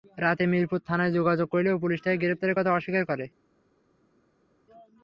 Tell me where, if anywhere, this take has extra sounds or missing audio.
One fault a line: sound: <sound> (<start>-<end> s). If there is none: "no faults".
no faults